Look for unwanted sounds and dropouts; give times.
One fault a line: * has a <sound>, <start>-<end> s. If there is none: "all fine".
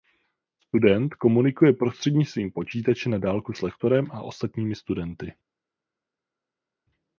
all fine